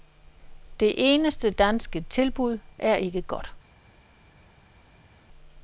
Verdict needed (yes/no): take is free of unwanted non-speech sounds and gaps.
yes